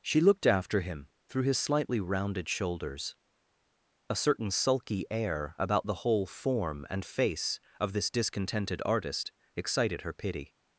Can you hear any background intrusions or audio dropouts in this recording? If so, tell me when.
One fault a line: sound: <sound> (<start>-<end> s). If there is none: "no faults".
no faults